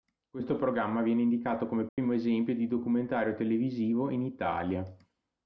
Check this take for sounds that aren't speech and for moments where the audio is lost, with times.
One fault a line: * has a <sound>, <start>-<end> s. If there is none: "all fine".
* has a dropout, 1.9-2.0 s